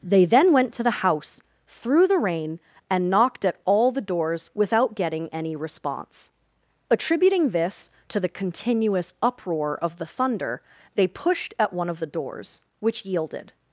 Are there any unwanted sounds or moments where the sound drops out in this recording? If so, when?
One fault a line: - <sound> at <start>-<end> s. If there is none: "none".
none